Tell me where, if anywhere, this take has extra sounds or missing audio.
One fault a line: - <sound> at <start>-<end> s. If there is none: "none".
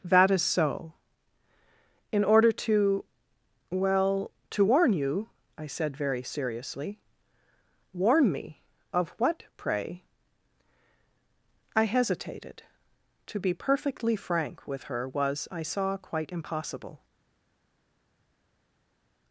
none